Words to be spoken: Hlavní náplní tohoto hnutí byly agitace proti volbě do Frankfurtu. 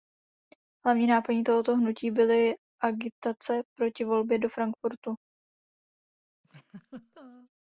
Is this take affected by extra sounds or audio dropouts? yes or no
yes